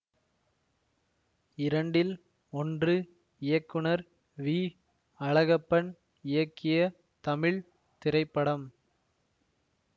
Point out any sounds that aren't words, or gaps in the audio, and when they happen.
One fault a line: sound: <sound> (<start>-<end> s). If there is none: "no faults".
no faults